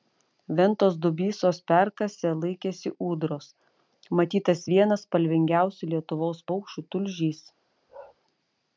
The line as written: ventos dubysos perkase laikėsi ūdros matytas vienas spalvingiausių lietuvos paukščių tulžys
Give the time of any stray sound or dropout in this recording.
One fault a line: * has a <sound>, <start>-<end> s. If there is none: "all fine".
* has a bark, 7.9-8.2 s